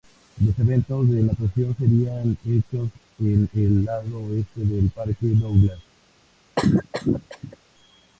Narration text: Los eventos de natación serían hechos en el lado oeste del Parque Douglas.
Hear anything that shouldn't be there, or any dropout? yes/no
yes